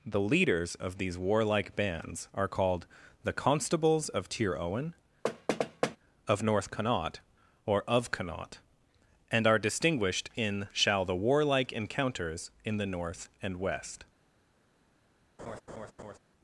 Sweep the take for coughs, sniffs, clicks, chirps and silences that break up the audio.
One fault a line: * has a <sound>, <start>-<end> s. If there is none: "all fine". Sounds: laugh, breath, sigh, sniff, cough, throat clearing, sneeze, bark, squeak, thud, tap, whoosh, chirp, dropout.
* has a thud, 5.2-6.0 s
* has a laugh, 15.4-16.2 s